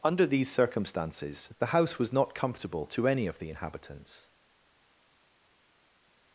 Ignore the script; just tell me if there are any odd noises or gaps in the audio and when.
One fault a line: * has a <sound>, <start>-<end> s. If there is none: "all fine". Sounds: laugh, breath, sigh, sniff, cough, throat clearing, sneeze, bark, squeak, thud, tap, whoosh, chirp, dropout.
all fine